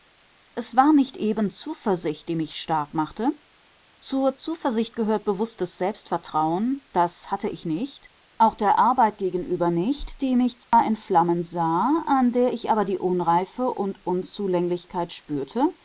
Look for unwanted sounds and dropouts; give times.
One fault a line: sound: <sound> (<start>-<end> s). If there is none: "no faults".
sound: dropout (10.6-10.7 s)